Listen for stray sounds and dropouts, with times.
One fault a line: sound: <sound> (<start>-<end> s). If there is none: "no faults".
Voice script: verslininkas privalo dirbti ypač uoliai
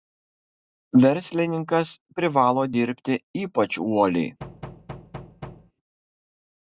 sound: thud (4.4-5.7 s)